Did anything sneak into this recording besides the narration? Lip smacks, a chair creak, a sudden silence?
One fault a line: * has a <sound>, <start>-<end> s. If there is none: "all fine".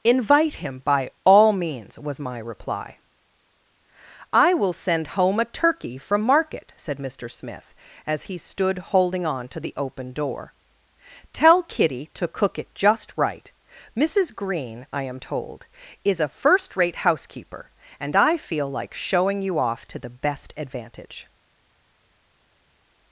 all fine